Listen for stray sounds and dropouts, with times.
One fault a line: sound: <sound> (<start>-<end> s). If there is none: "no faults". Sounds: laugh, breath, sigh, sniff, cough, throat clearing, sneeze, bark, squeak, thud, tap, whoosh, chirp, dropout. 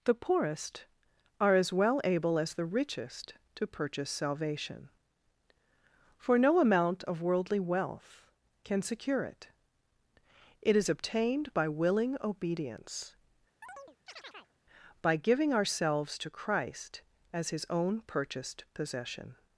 sound: chirp (13.6-14.5 s)